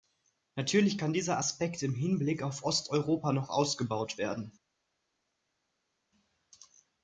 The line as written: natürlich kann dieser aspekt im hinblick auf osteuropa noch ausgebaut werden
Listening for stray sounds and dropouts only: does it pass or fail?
pass